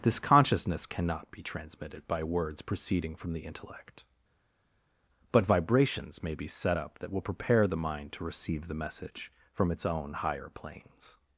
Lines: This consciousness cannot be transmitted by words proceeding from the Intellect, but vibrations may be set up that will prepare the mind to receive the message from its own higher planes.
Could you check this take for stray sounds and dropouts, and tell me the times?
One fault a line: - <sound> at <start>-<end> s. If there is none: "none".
none